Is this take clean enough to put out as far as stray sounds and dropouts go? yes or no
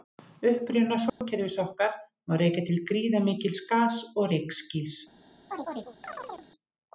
no